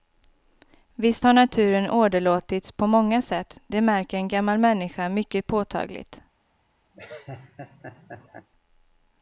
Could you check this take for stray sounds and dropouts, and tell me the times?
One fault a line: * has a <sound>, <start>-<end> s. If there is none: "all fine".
* has a laugh, 6.9-8.5 s